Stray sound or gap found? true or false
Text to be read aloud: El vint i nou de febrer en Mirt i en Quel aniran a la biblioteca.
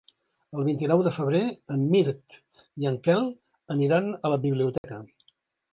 true